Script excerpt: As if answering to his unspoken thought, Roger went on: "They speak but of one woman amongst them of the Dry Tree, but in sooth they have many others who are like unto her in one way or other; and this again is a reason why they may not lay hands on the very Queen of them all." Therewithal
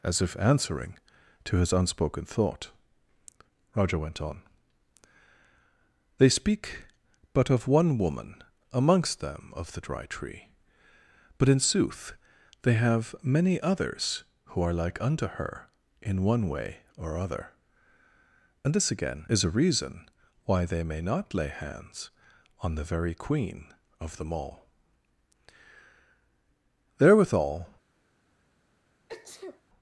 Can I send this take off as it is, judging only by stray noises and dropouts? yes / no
no